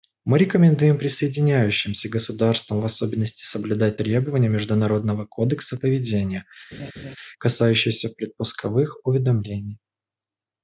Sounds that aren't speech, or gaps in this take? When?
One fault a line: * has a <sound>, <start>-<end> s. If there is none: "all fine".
* has a laugh, 6.7-7.2 s